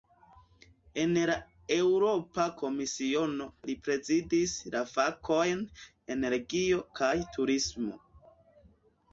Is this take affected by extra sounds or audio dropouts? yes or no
no